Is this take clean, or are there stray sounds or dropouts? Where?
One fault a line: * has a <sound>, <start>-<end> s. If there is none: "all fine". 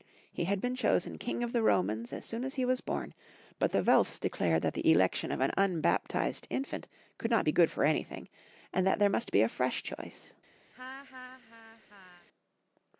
* has a laugh, 10.7-12.3 s